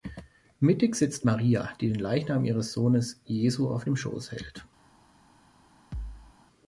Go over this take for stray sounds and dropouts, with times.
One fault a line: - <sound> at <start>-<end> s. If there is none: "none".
- thud at 5.9-6.3 s